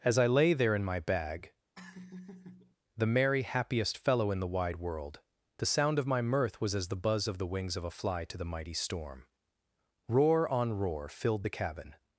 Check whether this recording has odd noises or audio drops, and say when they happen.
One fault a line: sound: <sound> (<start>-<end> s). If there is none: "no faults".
sound: laugh (1.8-2.8 s)